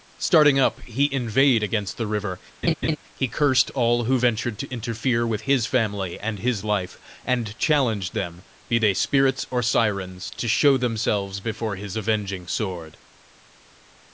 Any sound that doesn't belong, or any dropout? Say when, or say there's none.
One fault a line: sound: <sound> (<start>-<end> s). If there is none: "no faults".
sound: laugh (2.6-3.0 s)